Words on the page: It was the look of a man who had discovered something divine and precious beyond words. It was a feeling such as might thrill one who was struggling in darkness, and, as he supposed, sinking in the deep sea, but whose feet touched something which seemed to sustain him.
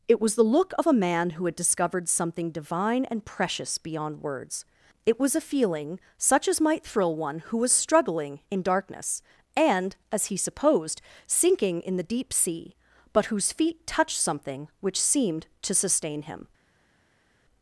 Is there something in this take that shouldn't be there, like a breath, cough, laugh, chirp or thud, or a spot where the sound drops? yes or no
no